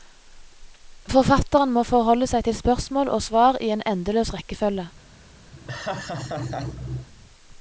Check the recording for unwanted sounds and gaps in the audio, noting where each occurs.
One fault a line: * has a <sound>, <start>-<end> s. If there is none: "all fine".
* has a laugh, 5.5-7.1 s